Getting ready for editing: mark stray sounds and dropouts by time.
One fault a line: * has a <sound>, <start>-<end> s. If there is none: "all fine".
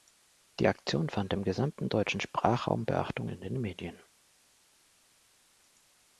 all fine